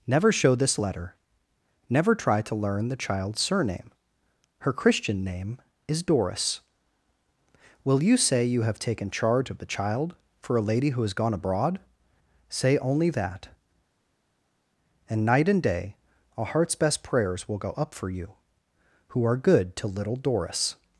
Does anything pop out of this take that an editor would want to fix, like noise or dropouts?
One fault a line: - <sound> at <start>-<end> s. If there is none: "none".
none